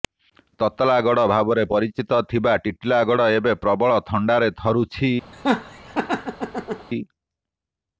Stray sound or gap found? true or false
true